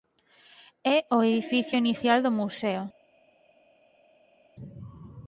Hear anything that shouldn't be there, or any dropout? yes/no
no